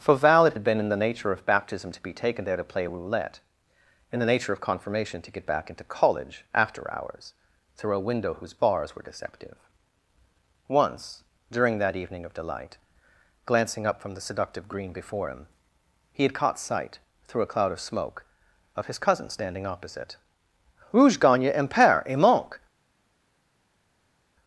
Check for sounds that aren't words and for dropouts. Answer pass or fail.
pass